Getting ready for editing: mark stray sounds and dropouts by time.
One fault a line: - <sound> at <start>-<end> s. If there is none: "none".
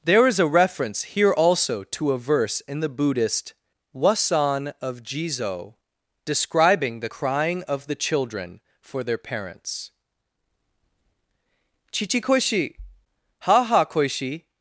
none